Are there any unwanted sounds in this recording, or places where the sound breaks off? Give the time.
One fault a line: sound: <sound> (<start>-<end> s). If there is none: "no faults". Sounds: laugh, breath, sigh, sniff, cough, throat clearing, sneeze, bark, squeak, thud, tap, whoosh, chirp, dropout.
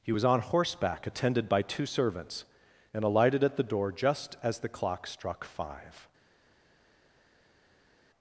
no faults